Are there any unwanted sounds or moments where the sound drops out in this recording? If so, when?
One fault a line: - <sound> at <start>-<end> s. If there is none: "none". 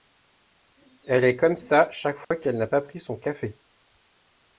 - dropout at 2.2-2.3 s